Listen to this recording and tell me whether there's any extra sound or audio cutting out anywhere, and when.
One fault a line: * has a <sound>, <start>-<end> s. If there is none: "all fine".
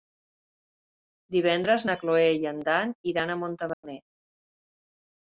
* has a dropout, 3.7-3.8 s